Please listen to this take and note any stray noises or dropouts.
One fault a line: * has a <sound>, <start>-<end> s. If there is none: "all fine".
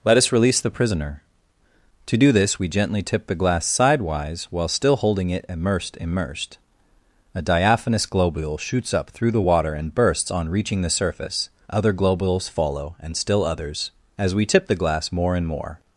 all fine